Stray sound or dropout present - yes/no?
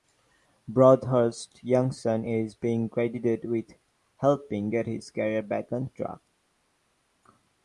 no